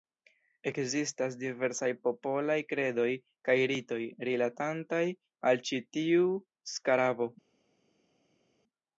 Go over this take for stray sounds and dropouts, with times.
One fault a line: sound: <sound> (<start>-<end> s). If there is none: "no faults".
no faults